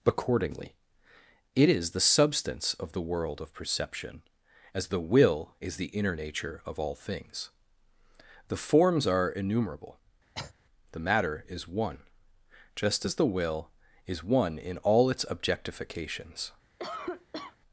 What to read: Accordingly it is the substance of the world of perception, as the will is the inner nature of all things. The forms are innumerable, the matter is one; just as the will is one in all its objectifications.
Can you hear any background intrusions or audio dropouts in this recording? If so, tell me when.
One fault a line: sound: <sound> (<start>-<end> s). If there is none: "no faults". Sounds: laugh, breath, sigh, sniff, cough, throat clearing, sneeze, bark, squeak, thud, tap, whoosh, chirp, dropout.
sound: cough (10.3-10.5 s)
sound: cough (16.8-17.6 s)